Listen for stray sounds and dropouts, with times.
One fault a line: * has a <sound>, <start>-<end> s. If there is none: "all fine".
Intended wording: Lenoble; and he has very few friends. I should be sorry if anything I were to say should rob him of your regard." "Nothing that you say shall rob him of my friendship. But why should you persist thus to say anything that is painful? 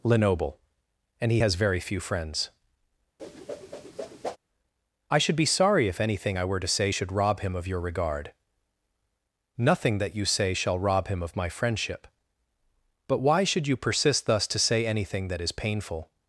* has a whoosh, 3.2-4.4 s